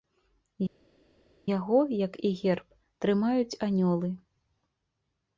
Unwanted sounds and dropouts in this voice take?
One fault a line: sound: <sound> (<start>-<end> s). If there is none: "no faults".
no faults